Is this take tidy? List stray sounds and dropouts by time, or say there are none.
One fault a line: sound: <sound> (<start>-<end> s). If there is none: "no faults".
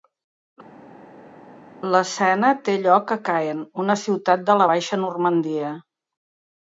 no faults